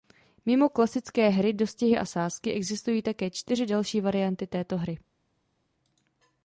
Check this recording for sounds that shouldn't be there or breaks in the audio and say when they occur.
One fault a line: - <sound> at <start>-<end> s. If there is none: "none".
none